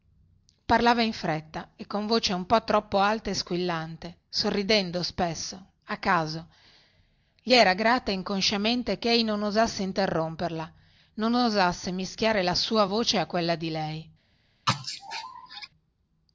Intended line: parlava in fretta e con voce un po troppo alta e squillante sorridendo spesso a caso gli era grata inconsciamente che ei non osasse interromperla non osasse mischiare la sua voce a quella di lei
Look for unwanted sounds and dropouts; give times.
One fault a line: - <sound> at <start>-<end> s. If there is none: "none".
- sneeze at 14.7-15.7 s